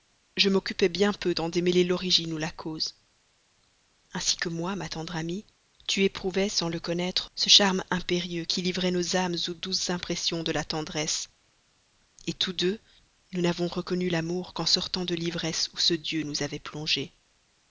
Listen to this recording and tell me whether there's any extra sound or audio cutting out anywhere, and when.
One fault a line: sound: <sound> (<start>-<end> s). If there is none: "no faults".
no faults